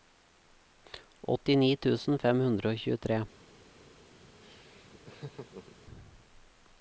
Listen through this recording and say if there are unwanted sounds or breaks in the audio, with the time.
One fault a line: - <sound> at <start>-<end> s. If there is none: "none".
- laugh at 4.4-5.8 s